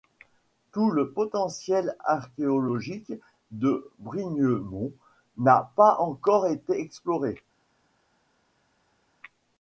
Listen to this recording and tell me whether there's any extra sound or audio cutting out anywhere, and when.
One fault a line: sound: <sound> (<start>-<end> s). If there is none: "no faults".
no faults